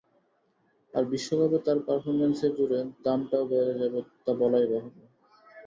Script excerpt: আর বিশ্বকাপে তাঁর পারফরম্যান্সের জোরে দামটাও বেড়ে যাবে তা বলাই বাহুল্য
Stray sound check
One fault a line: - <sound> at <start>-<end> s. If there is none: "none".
none